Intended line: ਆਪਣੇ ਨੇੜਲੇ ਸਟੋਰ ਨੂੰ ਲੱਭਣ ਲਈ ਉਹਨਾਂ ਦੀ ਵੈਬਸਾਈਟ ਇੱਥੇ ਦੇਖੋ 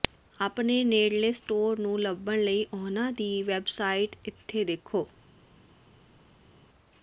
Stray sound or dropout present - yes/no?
no